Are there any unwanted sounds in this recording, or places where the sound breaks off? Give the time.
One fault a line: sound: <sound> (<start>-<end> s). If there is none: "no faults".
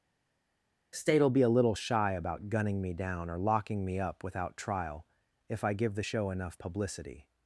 no faults